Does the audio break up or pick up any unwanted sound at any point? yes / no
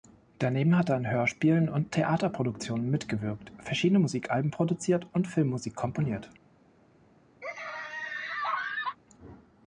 yes